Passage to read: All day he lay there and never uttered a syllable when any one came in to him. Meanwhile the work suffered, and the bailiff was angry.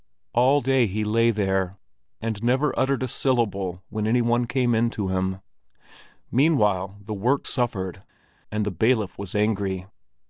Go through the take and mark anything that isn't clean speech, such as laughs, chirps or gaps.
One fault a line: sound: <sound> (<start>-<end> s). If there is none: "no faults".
no faults